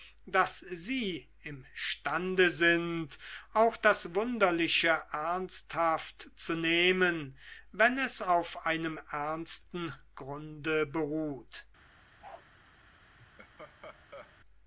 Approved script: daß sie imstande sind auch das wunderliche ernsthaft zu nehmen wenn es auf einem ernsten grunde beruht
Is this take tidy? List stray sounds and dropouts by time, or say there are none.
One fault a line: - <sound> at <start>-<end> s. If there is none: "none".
- bark at 12.2-12.5 s
- laugh at 13.2-14.4 s